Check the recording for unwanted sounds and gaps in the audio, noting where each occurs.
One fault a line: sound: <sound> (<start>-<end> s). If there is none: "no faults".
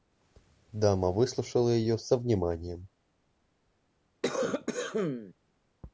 sound: cough (4.2-5.3 s)